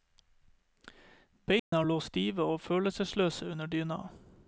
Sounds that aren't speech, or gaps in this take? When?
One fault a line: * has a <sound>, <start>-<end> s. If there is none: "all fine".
* has a dropout, 1.6-1.7 s